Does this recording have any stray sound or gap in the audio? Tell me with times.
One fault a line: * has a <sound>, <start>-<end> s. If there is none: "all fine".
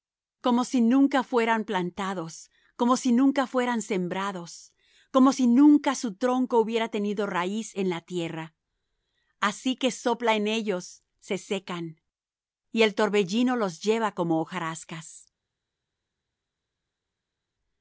all fine